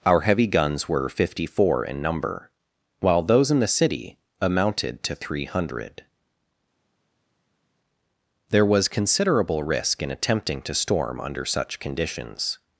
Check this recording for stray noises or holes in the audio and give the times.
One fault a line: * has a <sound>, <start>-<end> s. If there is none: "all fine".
all fine